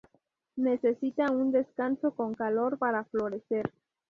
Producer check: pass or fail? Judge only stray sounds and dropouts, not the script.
pass